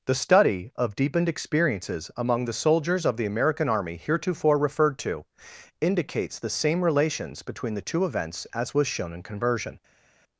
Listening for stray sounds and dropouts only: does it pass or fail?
pass